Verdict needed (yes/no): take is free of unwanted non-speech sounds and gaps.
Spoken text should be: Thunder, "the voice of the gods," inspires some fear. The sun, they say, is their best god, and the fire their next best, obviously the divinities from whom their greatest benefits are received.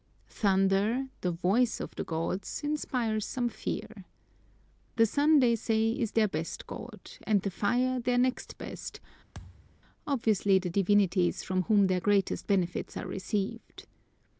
no